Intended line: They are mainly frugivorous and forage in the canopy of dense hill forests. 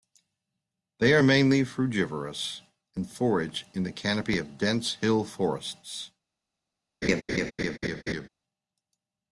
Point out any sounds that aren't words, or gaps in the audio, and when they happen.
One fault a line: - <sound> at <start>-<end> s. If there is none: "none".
- laugh at 7.0-8.3 s